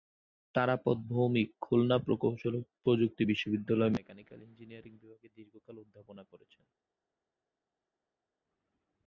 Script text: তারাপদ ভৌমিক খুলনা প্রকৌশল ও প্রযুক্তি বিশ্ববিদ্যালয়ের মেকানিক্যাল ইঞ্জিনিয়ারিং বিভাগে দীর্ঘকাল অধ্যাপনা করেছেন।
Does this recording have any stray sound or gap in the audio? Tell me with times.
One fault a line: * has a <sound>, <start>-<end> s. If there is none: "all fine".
all fine